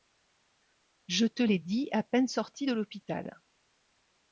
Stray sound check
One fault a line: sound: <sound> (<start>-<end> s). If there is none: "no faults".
no faults